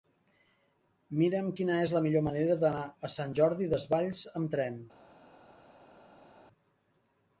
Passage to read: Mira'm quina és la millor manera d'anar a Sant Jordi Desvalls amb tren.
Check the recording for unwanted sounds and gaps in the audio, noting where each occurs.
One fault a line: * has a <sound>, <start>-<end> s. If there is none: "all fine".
all fine